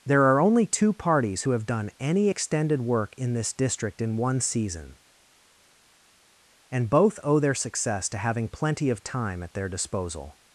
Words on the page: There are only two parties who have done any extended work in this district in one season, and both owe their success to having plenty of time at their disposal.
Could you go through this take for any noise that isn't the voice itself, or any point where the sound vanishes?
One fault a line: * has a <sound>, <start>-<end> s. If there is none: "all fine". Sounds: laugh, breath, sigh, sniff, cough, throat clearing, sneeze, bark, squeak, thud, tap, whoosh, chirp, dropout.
all fine